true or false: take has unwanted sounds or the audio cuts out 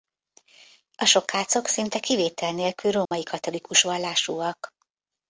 true